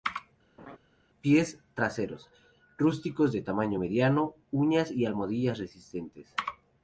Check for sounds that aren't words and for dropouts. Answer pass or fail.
fail